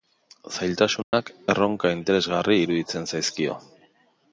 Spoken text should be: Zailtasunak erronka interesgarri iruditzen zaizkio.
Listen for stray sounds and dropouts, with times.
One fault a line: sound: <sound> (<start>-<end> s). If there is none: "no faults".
sound: dropout (1.0-1.1 s)